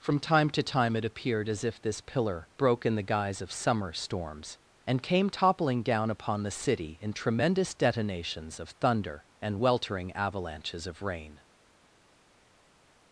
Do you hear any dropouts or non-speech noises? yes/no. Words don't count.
no